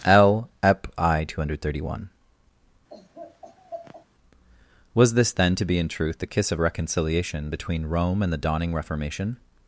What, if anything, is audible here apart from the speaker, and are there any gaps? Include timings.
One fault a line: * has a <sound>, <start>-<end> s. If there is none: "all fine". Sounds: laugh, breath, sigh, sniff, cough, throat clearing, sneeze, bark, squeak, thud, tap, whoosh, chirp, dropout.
* has a laugh, 2.9-4.1 s